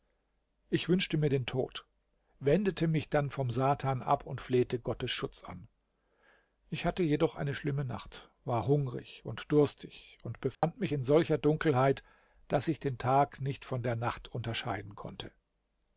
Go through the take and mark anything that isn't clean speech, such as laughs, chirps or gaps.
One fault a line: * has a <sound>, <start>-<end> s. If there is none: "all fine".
* has a dropout, 10.5-10.6 s